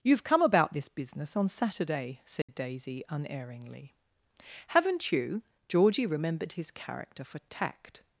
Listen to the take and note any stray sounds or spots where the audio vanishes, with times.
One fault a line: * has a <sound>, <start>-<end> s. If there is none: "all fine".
* has a dropout, 2.4-2.5 s